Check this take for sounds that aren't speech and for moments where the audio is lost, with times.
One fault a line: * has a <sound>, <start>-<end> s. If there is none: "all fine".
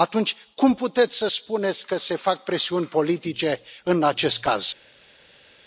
all fine